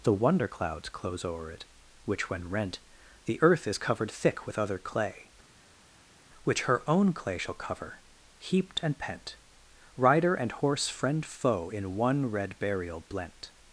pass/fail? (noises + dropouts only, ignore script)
pass